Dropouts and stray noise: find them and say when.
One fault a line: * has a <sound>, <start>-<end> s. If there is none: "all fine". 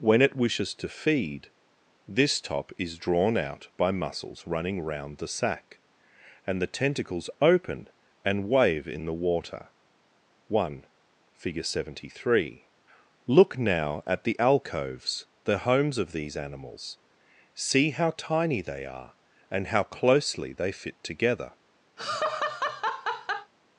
* has a laugh, 22.0-23.5 s